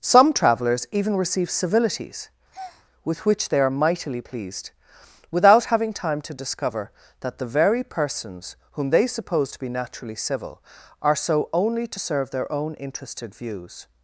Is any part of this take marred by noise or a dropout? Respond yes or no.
yes